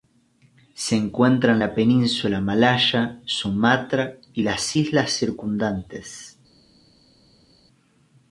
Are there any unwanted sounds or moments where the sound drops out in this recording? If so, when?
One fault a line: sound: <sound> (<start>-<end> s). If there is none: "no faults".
no faults